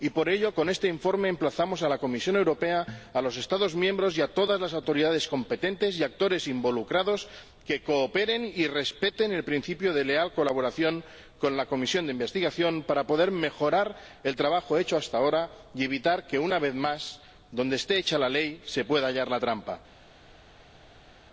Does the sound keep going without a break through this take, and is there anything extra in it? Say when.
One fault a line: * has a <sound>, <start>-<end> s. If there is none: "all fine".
all fine